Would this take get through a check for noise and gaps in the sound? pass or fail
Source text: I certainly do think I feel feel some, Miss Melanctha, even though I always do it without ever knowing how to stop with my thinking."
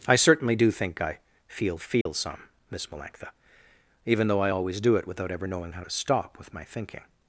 fail